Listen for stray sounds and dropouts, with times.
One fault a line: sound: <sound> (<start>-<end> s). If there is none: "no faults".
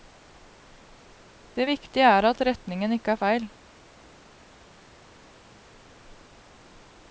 no faults